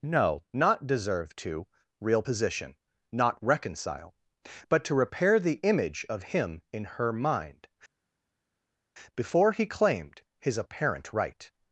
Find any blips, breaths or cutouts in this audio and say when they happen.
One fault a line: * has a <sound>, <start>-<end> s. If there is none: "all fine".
all fine